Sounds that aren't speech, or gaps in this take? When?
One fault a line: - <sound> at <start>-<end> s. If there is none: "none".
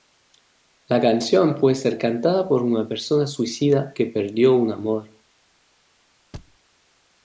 - thud at 6.3-6.6 s